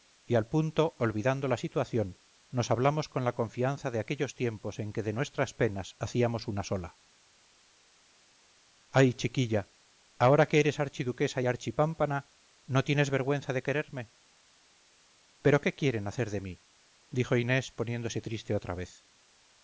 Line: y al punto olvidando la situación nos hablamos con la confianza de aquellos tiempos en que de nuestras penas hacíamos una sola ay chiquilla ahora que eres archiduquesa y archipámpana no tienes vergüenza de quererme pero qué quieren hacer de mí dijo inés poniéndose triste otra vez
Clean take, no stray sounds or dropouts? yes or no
yes